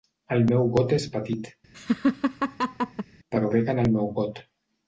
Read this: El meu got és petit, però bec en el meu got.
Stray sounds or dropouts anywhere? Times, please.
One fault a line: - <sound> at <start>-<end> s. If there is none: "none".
- laugh at 1.7-3.1 s